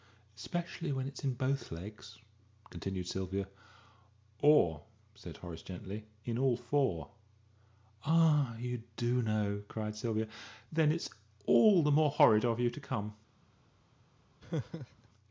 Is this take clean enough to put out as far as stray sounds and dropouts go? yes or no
no